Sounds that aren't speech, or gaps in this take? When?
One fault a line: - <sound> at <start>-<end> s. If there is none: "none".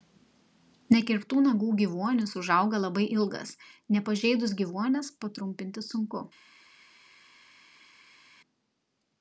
none